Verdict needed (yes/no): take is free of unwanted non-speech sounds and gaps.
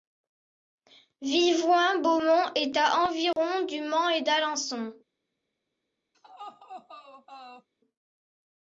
no